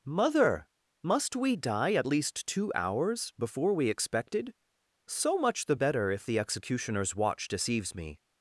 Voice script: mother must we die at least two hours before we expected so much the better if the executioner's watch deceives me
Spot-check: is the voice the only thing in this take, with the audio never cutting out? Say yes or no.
yes